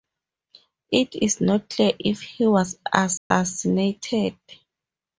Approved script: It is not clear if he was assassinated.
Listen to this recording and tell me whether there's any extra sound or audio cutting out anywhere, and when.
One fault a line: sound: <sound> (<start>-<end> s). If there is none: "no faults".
sound: dropout (3.2-3.3 s)